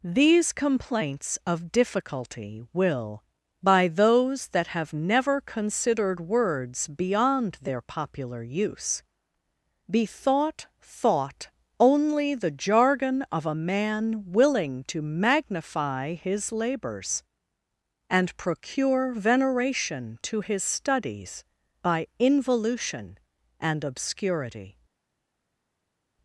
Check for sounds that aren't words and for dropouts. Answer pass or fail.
pass